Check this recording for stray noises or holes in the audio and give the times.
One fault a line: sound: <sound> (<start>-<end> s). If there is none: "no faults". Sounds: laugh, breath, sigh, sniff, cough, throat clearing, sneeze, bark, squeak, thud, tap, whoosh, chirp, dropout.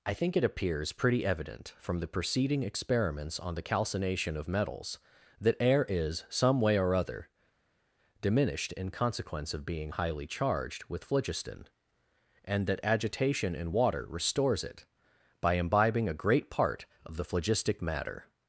no faults